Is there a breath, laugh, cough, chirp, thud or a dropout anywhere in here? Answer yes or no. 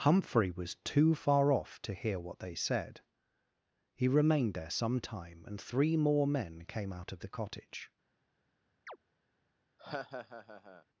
yes